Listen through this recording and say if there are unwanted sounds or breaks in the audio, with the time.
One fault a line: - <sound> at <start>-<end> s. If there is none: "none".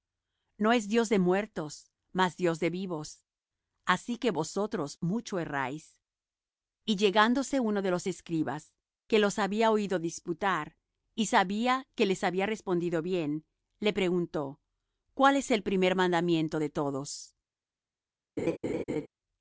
- laugh at 18.4-19.1 s